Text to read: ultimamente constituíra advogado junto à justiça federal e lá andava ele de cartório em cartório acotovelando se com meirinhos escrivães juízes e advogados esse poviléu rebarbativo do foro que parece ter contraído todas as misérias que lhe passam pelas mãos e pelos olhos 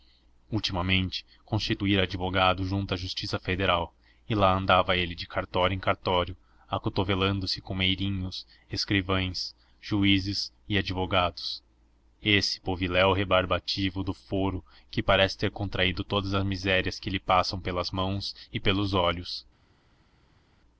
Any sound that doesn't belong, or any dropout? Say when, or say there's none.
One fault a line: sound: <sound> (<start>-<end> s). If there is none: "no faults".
no faults